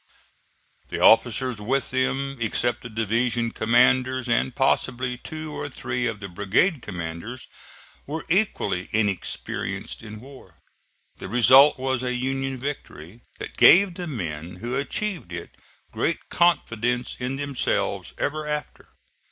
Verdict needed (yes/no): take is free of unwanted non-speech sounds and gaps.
yes